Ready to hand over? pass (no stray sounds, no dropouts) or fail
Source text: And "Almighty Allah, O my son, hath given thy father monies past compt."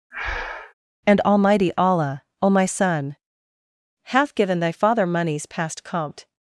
fail